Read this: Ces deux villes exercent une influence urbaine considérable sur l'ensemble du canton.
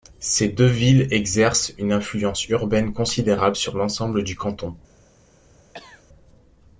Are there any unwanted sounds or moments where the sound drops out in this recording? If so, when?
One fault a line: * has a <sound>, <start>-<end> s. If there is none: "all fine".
* has a cough, 5.7-6.0 s